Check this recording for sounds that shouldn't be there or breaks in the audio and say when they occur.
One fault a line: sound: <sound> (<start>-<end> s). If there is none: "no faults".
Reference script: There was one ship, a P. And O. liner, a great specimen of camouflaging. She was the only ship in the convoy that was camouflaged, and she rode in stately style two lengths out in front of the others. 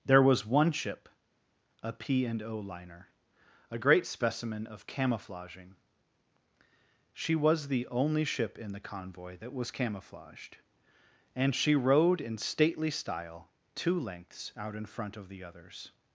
no faults